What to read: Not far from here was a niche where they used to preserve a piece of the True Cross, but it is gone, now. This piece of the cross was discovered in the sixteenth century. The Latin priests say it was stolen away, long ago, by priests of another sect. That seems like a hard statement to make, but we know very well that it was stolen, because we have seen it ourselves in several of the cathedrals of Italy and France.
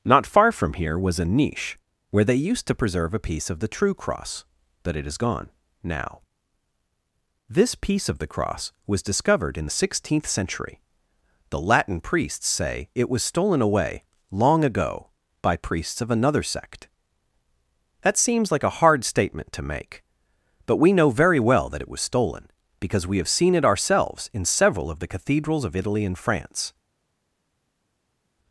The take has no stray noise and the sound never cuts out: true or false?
true